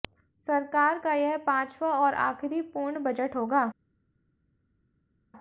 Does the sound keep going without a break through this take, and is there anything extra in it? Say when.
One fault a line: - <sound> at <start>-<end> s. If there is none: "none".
none